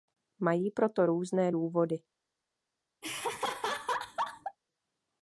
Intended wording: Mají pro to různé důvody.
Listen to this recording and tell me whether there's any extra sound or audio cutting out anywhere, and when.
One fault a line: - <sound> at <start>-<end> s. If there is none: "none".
- laugh at 3.0-4.6 s